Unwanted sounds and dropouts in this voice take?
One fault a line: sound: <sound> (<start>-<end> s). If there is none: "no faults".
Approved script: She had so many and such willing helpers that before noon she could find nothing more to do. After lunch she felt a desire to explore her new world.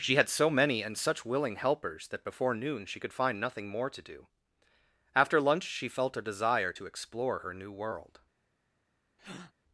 sound: breath (9.2-9.5 s)